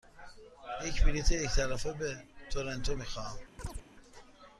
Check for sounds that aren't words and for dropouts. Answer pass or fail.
fail